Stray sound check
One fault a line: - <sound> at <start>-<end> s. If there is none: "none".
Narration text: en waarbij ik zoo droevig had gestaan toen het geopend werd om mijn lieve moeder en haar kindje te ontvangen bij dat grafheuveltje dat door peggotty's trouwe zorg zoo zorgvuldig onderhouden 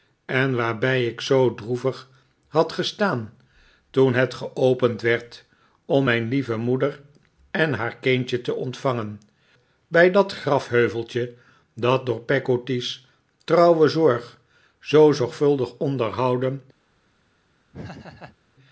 - laugh at 17.7-18.4 s